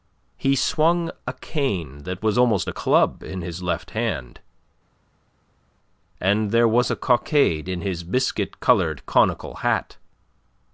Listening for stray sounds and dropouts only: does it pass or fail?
pass